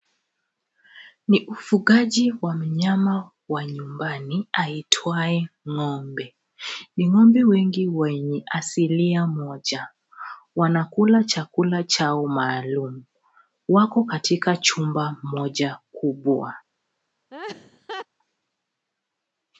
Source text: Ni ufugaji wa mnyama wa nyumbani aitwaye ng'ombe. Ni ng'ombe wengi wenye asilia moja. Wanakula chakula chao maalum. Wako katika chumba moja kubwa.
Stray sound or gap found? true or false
true